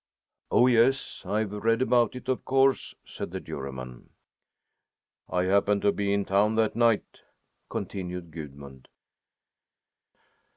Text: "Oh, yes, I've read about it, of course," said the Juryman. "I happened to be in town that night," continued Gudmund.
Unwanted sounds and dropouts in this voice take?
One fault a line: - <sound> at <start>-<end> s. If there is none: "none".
none